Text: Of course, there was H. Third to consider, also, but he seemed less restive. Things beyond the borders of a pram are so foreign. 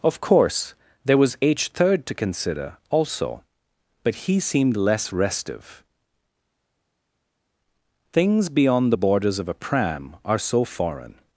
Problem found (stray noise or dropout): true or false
false